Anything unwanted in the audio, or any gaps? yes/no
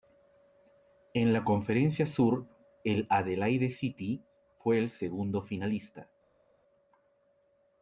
no